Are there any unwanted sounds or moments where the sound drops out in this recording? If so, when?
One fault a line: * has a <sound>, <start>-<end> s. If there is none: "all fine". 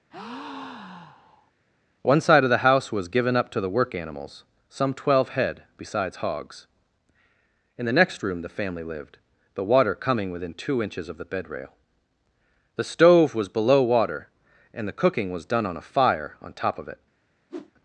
* has a breath, 0.1-1.5 s
* has a whoosh, 17.5-17.7 s